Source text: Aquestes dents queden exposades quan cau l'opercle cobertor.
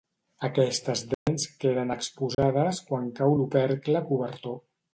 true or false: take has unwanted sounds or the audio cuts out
true